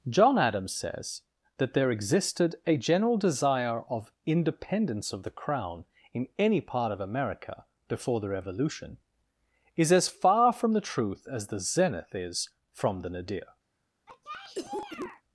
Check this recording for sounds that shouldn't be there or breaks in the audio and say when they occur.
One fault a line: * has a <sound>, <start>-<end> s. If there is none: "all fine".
* has a cough, 14.1-15.2 s